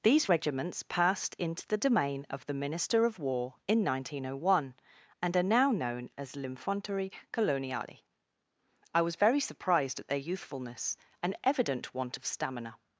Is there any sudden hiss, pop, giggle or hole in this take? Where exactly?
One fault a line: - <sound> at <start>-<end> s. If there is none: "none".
none